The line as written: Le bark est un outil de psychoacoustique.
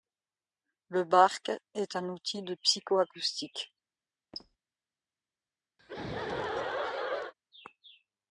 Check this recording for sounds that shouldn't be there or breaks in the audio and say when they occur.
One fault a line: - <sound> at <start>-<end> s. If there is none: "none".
- squeak at 4.3-4.6 s
- laugh at 5.8-7.3 s